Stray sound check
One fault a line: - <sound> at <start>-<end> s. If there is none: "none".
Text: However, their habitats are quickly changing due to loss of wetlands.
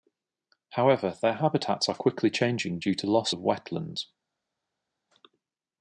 none